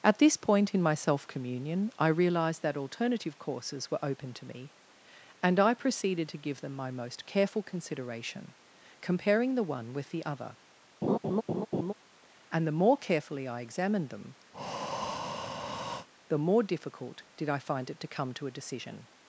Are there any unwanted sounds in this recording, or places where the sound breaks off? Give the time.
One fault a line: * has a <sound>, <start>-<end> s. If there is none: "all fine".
* has a laugh, 11.0-11.9 s
* has a breath, 14.5-16.1 s